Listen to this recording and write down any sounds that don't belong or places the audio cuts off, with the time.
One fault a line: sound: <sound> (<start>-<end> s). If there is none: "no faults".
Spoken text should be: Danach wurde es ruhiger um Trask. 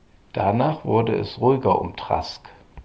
no faults